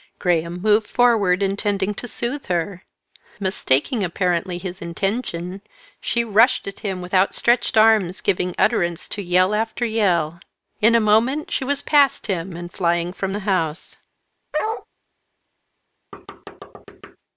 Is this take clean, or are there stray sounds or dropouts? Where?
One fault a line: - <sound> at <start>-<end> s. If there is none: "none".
- bark at 14.5-14.9 s
- thud at 16.1-17.2 s